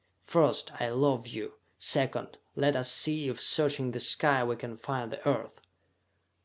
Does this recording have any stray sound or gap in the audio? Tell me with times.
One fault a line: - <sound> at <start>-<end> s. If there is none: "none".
none